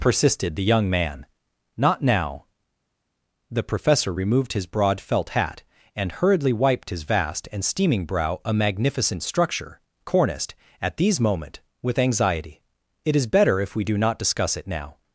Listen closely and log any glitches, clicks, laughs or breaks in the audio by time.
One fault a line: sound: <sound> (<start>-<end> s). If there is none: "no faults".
no faults